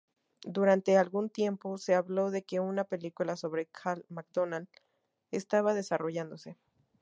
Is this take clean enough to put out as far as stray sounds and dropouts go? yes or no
yes